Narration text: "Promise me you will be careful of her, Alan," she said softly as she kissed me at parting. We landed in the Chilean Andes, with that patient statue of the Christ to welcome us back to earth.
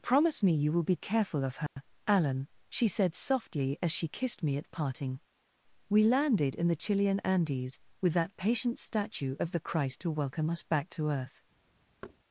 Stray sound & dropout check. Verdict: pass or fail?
fail